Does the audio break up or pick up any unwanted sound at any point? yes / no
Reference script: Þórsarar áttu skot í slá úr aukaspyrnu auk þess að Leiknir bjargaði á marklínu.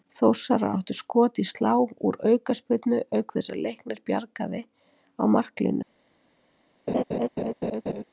yes